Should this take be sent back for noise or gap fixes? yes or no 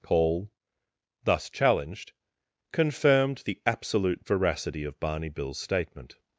no